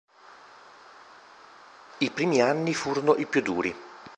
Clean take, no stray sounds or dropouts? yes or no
yes